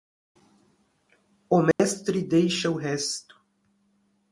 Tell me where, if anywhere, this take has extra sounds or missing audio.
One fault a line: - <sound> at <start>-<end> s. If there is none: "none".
- dropout at 1.7-1.8 s